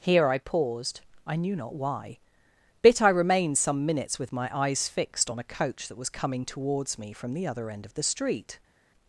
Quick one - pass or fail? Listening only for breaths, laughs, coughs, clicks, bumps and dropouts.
pass